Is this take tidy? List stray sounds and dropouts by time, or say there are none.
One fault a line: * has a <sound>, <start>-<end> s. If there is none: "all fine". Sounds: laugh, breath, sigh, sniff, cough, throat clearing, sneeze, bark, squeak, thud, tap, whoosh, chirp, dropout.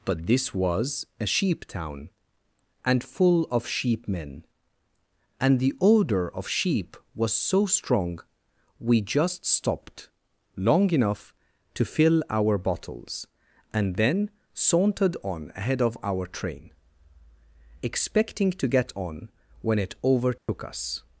* has a dropout, 20.4-20.5 s